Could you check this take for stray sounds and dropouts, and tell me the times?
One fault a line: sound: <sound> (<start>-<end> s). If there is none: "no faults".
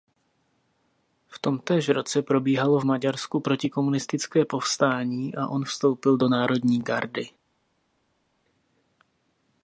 no faults